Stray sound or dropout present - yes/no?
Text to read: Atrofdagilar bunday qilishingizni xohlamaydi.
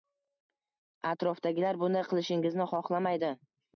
no